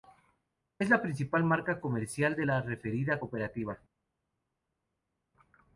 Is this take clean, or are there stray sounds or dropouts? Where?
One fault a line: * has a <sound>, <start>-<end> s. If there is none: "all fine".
all fine